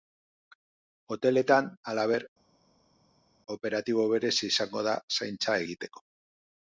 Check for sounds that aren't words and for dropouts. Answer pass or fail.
pass